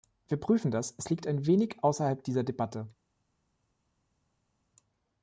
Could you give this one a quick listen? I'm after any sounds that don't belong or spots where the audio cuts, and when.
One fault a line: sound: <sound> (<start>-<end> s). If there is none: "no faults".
no faults